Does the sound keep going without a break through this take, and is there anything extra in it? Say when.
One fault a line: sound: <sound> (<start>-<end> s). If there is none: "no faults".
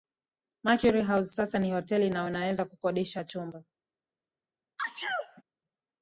sound: sneeze (4.8-5.4 s)